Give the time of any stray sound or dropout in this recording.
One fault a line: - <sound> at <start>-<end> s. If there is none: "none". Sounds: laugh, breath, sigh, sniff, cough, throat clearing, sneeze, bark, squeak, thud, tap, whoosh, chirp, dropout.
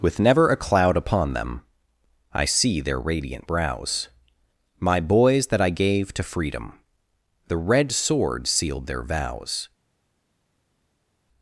none